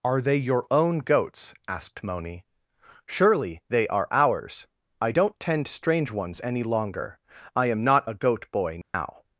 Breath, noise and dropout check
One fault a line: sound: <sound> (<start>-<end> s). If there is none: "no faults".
sound: dropout (8.8-8.9 s)